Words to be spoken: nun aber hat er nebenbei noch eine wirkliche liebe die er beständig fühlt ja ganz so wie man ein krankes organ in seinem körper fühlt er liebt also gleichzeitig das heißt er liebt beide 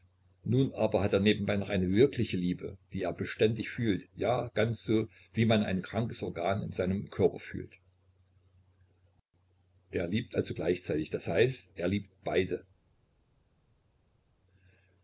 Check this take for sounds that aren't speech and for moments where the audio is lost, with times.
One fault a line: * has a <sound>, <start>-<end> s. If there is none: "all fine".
all fine